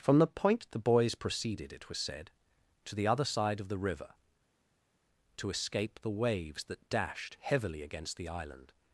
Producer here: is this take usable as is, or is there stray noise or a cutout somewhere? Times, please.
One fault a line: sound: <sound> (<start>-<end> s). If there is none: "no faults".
no faults